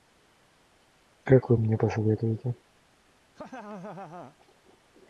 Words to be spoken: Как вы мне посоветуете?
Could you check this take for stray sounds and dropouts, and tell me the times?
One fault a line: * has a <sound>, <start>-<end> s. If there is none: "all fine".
* has a laugh, 3.3-4.4 s